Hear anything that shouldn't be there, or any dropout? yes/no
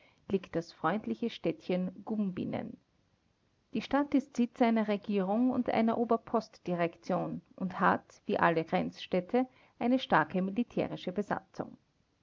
no